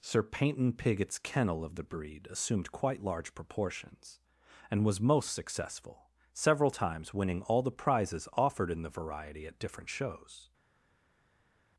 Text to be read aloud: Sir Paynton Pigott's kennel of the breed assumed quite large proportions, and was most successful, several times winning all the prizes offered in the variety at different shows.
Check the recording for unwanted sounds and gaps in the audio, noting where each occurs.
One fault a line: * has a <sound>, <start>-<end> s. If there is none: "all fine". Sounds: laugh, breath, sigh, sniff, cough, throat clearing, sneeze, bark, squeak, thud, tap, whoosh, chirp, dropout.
all fine